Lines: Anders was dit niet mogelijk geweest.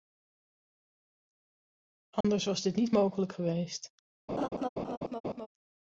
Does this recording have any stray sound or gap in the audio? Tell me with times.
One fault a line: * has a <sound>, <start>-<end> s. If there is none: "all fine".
* has a dropout, 2.2-2.2 s
* has a laugh, 4.3-5.5 s